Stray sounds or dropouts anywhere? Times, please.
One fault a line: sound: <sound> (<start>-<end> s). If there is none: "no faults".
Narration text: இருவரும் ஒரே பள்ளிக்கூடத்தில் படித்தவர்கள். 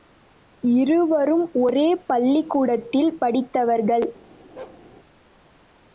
sound: bark (4.6-4.8 s)